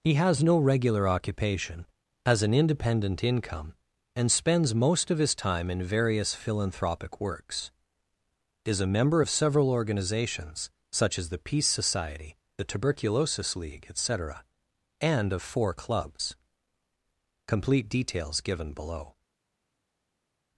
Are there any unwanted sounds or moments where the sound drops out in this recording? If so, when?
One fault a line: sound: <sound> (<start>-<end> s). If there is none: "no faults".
no faults